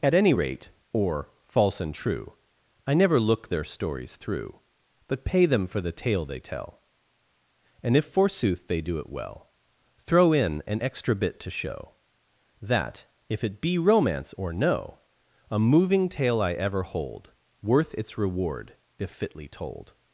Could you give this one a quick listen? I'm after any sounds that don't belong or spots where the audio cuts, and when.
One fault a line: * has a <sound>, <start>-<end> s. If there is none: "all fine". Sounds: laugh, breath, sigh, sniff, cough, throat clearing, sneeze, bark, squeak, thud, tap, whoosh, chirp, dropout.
all fine